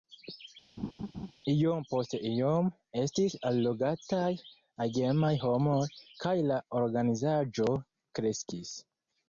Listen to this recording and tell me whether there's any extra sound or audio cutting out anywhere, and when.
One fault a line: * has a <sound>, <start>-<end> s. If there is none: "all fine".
* has a laugh, 0.8-1.3 s